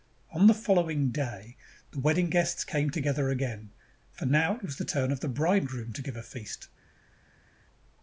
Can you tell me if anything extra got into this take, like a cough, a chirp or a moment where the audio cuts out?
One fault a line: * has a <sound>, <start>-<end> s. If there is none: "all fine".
all fine